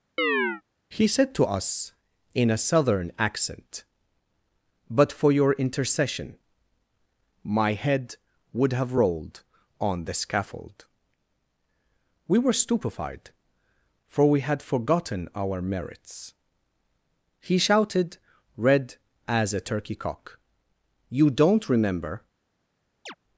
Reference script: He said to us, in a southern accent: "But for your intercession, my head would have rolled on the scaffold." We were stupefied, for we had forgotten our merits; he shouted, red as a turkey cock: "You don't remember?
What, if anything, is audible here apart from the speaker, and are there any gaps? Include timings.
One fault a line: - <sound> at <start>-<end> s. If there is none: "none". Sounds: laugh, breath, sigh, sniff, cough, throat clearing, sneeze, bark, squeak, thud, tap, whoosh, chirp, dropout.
- chirp at 0.2-0.6 s
- chirp at 23.1-23.1 s